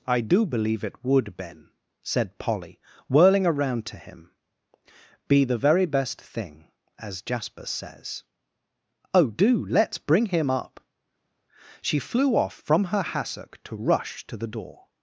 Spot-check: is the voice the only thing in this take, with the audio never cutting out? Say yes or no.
yes